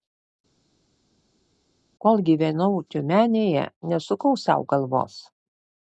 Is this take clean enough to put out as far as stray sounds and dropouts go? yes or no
yes